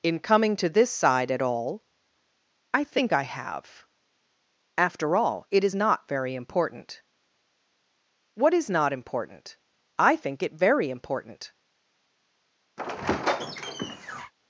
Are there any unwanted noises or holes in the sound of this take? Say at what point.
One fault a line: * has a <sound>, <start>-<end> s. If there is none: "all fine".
* has a squeak, 12.8-14.3 s